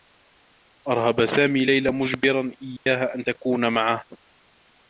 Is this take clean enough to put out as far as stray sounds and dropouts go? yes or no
no